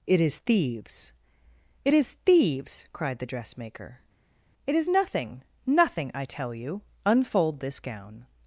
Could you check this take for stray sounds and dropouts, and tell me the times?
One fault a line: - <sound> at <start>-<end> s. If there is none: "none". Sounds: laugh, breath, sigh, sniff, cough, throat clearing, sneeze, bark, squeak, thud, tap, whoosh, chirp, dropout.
none